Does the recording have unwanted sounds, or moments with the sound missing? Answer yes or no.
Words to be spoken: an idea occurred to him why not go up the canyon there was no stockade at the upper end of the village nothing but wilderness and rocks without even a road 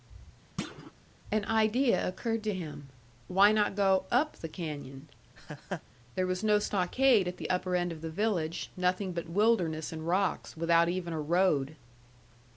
yes